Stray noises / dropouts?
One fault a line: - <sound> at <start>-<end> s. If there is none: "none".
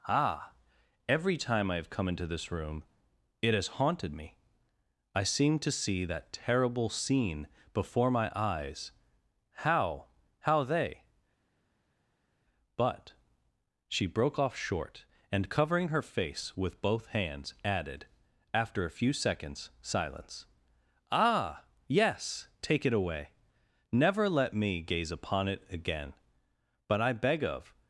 none